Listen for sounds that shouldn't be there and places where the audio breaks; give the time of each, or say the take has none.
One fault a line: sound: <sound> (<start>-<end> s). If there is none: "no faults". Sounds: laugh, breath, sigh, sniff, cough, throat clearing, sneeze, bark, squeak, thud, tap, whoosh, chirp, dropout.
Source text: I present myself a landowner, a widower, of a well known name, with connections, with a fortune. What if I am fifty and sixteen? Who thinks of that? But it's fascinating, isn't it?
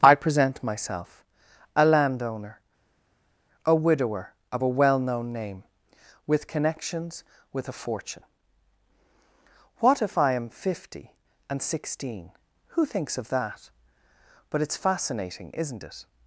no faults